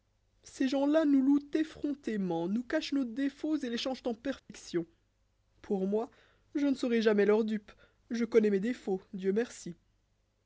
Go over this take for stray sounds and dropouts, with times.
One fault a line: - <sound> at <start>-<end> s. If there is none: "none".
- dropout at 4.4-4.5 s